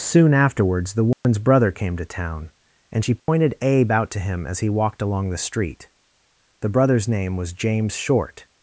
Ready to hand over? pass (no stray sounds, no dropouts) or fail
fail